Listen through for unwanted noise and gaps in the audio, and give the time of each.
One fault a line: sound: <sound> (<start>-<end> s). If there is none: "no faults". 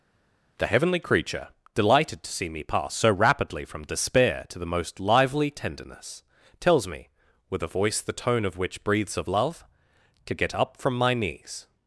no faults